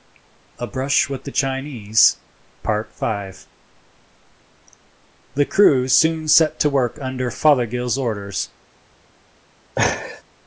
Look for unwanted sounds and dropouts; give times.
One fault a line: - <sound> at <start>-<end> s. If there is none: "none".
- laugh at 9.8-10.2 s